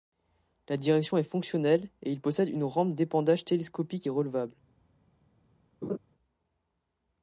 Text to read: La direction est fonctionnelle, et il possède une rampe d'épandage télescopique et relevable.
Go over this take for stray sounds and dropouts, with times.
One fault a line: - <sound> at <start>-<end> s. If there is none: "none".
- laugh at 5.8-6.0 s